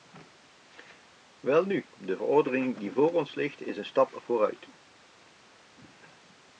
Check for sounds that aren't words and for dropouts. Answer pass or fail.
pass